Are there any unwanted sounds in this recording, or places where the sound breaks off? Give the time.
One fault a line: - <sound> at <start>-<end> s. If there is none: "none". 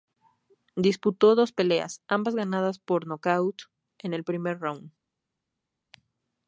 none